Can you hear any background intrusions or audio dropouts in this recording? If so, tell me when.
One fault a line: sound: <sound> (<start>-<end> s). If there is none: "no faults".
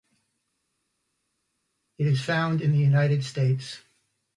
no faults